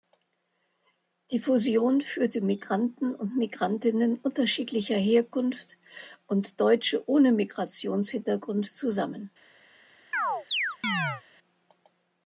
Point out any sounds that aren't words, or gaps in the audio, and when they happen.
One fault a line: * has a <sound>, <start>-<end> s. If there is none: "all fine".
* has a chirp, 10.1-11.2 s